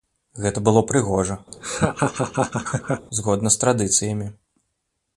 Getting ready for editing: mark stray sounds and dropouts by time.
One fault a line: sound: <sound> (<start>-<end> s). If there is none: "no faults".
sound: laugh (1.5-3.1 s)